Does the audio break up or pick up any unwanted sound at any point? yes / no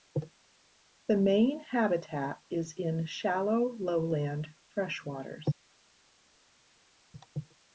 no